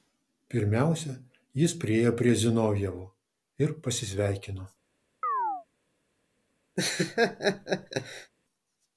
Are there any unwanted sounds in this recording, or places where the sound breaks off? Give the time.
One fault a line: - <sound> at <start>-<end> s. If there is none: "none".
- chirp at 5.2-5.7 s
- laugh at 6.8-8.3 s